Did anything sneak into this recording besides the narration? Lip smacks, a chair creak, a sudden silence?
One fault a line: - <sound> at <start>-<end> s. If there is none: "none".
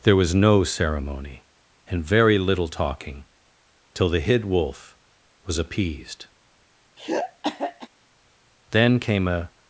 - throat clearing at 7.0-7.9 s